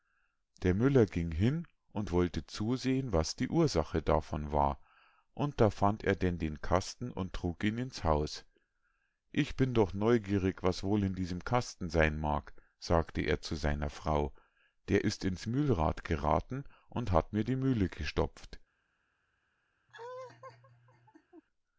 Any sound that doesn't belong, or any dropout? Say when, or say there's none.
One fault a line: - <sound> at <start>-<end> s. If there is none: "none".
- laugh at 19.9-21.4 s